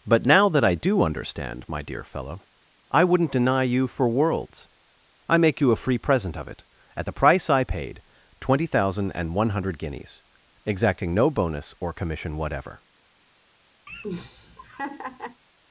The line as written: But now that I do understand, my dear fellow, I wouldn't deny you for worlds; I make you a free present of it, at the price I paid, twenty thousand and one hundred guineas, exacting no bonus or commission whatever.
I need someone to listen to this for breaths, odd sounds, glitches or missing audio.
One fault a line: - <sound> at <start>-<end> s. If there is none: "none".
- laugh at 13.9-15.4 s